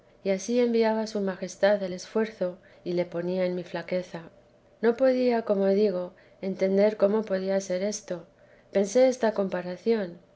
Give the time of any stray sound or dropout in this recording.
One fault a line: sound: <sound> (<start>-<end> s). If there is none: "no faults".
no faults